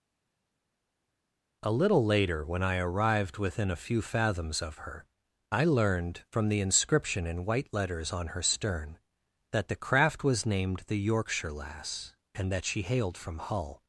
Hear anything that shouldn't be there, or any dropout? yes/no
no